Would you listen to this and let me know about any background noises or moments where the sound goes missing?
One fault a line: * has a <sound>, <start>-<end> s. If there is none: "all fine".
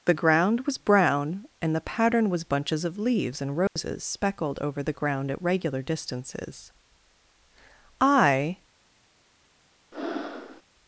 * has a dropout, 3.7-3.8 s
* has a breath, 9.9-10.6 s